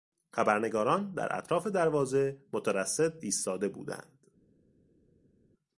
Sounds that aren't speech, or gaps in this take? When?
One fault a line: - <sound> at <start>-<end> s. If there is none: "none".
none